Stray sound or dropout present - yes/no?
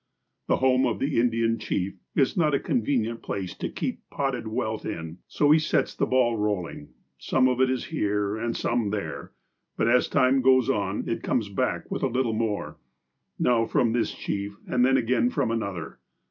no